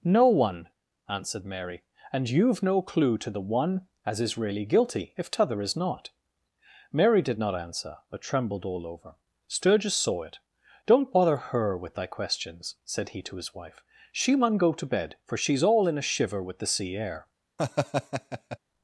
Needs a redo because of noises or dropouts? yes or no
yes